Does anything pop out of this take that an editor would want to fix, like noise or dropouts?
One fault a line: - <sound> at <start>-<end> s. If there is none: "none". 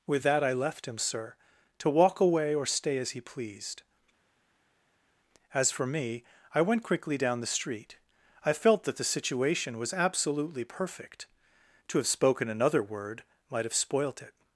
none